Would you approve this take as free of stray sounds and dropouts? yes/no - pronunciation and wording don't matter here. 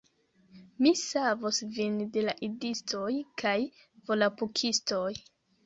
yes